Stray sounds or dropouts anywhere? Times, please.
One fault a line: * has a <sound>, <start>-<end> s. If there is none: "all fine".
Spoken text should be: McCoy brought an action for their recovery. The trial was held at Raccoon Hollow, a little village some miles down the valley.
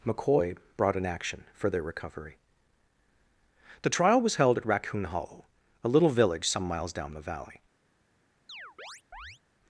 * has a chirp, 8.5-9.4 s